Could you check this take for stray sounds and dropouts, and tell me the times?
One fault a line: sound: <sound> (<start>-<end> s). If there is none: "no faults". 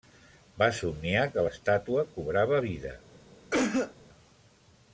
sound: cough (3.5-3.9 s)